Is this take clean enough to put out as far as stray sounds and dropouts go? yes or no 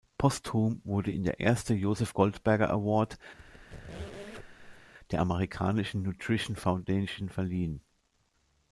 no